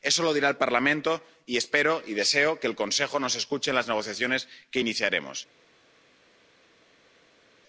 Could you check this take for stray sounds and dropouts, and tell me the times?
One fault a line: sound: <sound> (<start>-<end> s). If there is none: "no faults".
no faults